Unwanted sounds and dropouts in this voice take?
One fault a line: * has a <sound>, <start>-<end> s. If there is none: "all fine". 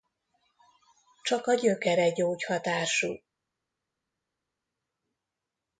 all fine